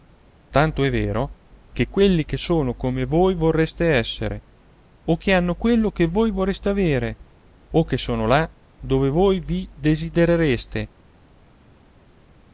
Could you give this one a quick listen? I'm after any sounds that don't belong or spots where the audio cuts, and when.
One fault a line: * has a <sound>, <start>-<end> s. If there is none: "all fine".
all fine